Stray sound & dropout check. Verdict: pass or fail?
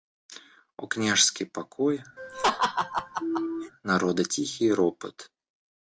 fail